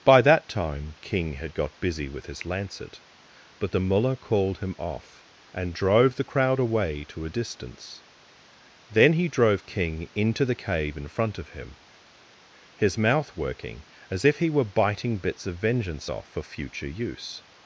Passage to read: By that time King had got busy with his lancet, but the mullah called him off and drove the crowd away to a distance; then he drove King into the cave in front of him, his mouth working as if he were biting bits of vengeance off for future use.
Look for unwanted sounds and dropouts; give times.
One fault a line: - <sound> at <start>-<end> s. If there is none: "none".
none